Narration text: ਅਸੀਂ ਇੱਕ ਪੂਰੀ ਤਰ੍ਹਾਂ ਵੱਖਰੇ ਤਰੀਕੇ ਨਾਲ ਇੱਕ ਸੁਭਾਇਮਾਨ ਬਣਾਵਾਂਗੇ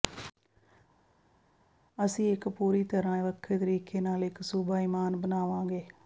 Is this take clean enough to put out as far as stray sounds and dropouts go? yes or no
yes